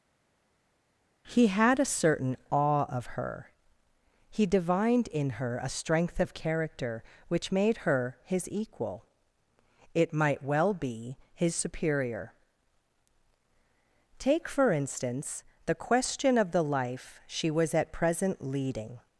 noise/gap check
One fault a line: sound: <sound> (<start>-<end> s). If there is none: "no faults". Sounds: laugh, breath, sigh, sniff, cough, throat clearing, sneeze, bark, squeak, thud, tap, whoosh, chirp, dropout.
no faults